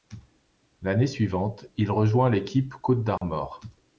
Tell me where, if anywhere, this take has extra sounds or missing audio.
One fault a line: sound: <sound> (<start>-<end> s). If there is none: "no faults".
sound: dropout (3.2-3.2 s)